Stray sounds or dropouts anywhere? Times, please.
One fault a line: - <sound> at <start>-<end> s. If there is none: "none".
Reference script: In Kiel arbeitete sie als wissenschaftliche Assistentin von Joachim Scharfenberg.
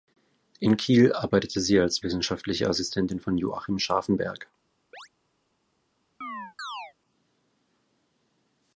- chirp at 4.9-5.1 s
- chirp at 6.2-6.9 s